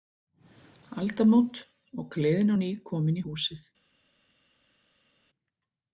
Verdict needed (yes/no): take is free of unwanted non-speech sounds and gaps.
yes